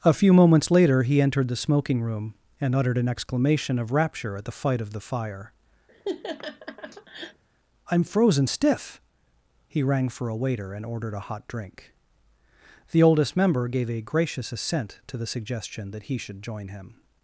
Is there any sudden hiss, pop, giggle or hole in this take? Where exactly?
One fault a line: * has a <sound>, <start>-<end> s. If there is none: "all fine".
* has a laugh, 5.9-7.4 s